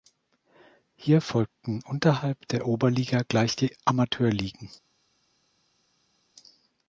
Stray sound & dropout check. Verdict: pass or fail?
pass